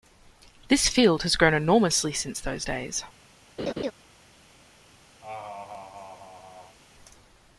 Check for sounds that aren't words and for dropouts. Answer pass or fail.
fail